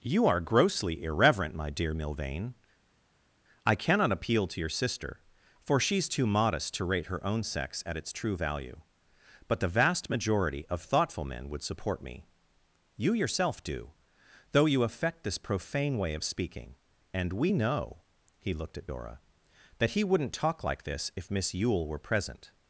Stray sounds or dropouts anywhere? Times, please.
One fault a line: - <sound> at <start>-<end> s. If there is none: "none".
none